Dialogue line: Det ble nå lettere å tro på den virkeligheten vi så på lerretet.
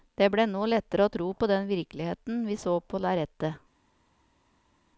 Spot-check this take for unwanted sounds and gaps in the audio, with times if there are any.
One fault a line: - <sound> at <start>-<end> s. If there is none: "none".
none